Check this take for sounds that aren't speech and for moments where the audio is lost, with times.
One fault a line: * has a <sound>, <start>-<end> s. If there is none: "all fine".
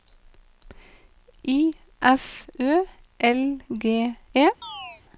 * has a chirp, 4.6-5.0 s